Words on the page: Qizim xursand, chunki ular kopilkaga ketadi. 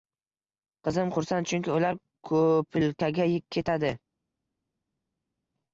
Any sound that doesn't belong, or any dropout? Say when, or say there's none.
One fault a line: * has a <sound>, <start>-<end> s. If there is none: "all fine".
all fine